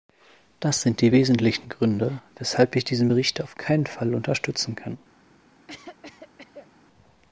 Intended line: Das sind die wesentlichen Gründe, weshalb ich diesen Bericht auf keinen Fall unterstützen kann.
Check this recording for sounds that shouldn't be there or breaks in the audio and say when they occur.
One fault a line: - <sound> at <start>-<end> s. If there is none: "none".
- cough at 5.7-6.7 s